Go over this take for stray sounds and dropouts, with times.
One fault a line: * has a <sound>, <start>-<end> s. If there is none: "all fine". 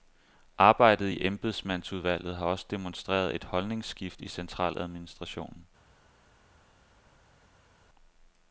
all fine